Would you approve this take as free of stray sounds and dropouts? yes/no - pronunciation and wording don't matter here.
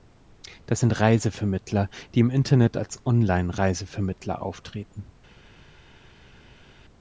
yes